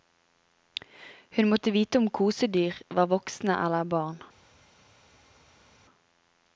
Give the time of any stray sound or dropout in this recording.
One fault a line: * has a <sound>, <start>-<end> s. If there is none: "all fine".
all fine